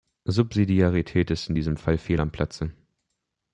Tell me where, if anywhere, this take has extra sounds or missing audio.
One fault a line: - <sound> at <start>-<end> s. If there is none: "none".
none